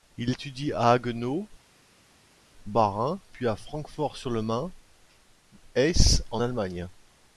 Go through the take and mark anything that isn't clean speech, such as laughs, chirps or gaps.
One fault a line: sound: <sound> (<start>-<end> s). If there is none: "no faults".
no faults